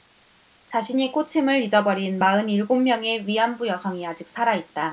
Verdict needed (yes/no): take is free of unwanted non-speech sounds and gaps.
yes